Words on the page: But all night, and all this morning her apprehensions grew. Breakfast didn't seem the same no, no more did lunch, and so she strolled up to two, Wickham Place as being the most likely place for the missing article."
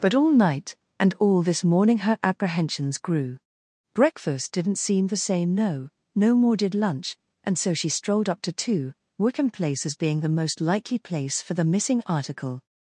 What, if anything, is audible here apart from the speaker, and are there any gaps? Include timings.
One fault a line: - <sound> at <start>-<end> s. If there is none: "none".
none